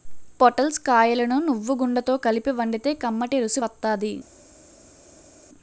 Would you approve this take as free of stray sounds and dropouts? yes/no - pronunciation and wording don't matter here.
yes